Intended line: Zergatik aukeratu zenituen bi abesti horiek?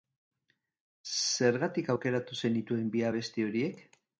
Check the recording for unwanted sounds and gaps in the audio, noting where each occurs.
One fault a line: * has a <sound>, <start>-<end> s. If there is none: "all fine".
all fine